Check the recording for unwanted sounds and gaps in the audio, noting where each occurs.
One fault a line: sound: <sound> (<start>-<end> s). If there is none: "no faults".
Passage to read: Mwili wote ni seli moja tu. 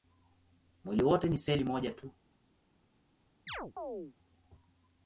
sound: chirp (3.5-4.1 s)